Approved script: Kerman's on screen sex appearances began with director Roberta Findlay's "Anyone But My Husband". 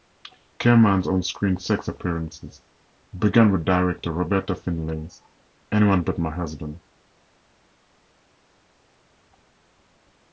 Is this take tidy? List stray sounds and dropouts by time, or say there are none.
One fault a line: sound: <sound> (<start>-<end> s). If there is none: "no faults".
no faults